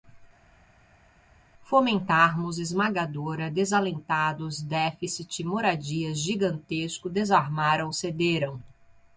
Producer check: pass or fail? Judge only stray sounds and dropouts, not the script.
pass